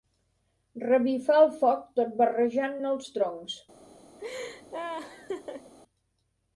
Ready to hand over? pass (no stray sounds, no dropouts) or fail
fail